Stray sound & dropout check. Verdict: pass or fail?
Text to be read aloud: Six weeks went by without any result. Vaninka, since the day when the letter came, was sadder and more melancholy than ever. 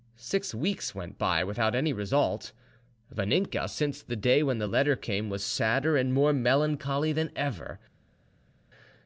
pass